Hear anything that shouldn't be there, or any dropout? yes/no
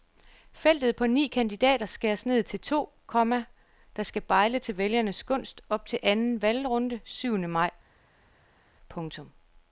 no